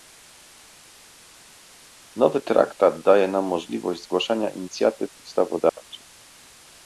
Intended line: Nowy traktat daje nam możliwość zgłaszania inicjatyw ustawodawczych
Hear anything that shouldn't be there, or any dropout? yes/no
yes